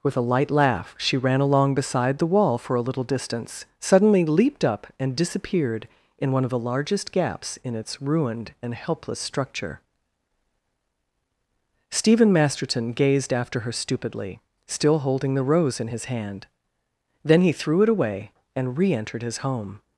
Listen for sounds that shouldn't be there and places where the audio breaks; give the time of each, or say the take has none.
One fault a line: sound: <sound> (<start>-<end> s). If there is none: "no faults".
no faults